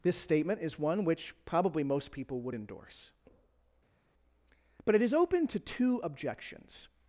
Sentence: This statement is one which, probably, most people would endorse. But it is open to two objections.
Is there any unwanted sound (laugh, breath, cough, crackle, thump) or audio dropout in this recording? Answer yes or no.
no